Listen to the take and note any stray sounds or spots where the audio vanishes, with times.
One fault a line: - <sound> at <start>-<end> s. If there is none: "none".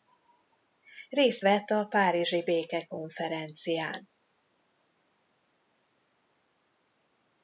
none